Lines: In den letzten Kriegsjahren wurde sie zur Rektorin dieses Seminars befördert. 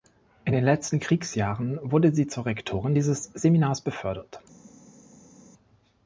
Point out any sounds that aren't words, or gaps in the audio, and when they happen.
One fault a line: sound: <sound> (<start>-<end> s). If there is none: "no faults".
no faults